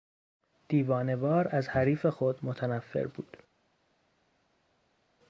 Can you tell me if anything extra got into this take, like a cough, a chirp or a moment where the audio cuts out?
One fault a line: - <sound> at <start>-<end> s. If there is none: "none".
none